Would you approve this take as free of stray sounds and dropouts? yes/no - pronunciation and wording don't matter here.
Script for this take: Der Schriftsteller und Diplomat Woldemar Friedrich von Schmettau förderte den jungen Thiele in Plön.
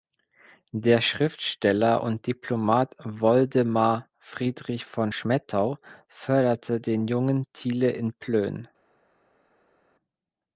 yes